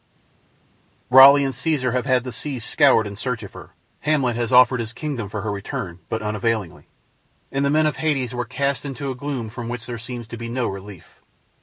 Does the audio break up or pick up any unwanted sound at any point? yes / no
no